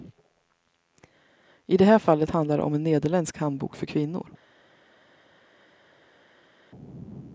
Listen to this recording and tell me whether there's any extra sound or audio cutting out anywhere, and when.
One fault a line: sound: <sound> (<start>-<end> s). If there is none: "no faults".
no faults